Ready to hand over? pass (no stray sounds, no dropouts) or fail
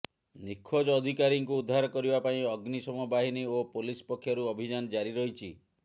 pass